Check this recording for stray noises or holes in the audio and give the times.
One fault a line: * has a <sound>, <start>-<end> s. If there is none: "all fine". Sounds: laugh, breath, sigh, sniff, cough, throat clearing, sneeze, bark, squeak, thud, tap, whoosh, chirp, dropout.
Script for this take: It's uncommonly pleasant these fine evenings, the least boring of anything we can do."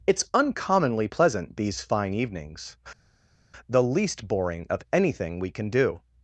all fine